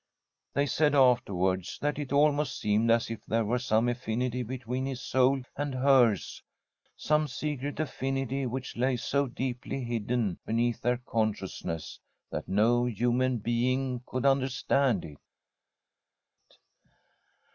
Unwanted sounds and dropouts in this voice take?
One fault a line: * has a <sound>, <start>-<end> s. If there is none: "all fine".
all fine